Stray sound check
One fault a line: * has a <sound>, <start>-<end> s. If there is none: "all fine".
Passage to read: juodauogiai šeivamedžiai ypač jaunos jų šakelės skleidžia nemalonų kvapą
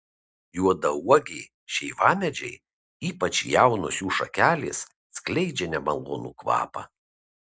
all fine